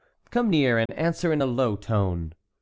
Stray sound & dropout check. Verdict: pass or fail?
fail